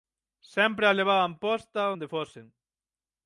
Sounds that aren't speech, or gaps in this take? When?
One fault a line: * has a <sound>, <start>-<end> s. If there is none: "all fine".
all fine